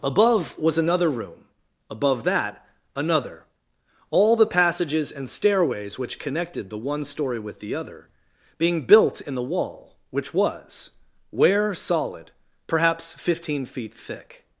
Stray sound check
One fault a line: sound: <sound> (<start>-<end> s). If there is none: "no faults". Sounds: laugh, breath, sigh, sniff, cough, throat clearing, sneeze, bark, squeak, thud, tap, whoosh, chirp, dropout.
no faults